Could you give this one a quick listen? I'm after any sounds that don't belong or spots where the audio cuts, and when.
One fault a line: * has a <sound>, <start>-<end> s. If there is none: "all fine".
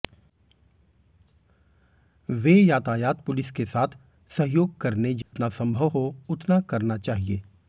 * has a dropout, 5.2-5.3 s